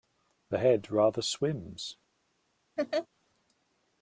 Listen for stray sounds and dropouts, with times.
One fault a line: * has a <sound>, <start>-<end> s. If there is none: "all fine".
* has a laugh, 2.8-3.1 s